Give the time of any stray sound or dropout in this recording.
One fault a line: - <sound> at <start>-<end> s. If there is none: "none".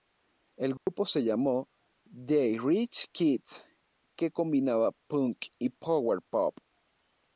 - dropout at 0.8-0.9 s